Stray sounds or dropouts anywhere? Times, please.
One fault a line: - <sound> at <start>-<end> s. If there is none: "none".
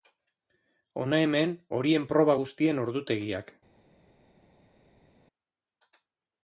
none